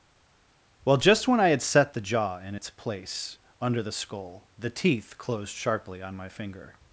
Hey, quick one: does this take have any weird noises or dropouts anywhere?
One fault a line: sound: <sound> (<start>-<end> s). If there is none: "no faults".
no faults